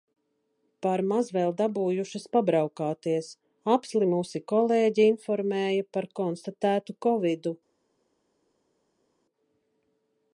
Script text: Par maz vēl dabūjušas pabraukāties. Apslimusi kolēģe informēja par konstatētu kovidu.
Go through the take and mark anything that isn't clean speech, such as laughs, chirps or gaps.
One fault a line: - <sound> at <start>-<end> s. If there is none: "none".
none